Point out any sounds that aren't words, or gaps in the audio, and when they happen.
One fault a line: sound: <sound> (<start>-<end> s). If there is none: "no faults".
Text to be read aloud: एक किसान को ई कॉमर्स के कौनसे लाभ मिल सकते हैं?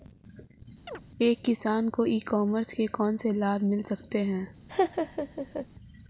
sound: chirp (0.9-1.0 s)
sound: laugh (4.7-5.7 s)